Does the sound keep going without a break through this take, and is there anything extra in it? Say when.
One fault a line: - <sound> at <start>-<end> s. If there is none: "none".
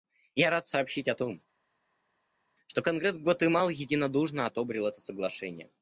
none